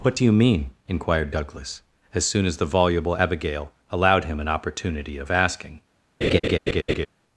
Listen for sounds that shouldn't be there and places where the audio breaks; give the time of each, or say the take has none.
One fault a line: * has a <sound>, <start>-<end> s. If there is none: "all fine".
* has a laugh, 6.2-7.1 s